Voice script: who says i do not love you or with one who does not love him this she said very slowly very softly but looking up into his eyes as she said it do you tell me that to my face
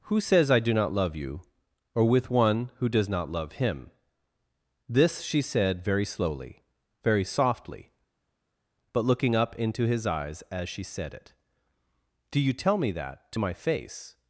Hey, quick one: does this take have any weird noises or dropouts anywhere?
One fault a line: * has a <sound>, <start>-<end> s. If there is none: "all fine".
all fine